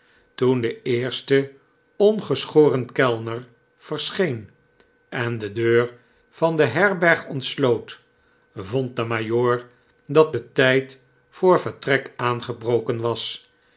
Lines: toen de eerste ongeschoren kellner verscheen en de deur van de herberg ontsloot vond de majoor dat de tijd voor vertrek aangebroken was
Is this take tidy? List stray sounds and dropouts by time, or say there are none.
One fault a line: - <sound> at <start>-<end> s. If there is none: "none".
none